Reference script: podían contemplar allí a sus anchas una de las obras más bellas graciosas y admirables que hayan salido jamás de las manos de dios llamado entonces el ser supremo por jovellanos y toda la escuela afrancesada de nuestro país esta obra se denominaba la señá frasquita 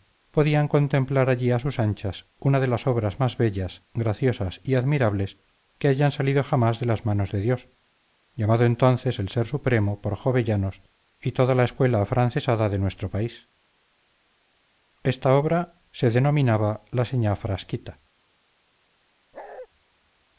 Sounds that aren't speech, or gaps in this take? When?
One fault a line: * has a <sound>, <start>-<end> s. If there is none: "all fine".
* has a bark, 19.3-19.7 s